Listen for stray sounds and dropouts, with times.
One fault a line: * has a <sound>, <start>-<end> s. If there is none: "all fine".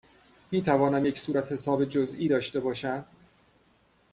all fine